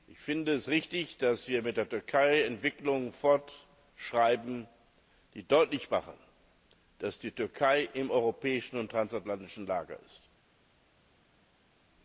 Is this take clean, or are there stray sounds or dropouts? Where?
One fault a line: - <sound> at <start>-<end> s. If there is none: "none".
none